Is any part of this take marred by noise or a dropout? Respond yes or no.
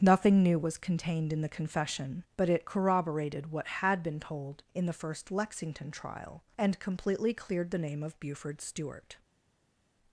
no